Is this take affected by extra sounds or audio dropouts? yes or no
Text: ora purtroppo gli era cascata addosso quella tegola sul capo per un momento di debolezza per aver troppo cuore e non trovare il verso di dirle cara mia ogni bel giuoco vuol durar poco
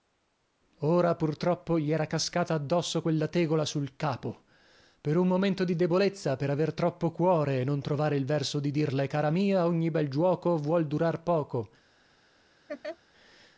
yes